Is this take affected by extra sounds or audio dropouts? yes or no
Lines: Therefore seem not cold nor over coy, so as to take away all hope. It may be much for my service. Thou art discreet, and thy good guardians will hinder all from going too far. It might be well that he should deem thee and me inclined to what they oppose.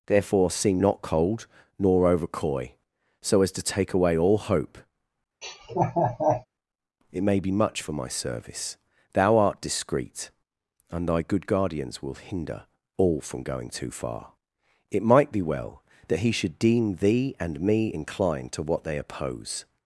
yes